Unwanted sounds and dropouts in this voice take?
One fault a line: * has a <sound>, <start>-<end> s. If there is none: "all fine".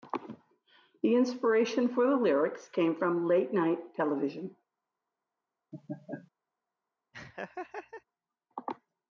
* has a laugh, 5.7-6.3 s
* has a laugh, 7.1-8.0 s